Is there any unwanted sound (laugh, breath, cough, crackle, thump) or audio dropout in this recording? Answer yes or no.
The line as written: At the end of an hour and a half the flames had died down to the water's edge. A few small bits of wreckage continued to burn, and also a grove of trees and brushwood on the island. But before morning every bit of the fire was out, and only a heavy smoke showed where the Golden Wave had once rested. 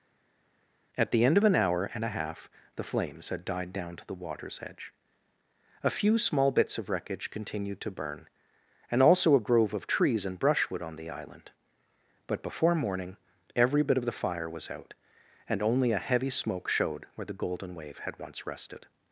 no